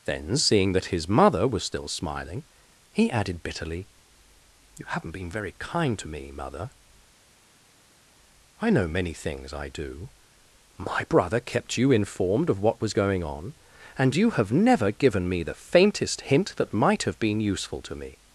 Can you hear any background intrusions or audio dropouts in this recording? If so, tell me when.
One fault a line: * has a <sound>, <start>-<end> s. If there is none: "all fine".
all fine